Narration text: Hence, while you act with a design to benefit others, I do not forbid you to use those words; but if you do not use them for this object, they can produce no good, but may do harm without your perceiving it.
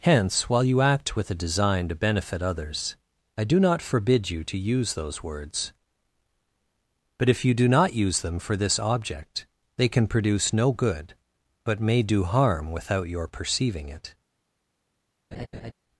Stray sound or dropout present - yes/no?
yes